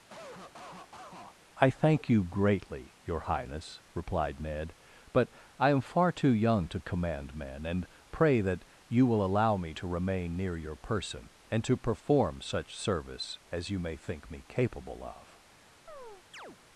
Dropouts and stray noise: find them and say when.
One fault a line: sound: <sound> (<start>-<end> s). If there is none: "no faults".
sound: cough (0.1-1.4 s)
sound: chirp (15.9-16.6 s)